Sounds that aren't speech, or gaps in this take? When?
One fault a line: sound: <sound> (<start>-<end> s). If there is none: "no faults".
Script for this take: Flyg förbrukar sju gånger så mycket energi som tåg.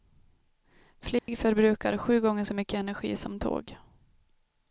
sound: dropout (1.2-1.3 s)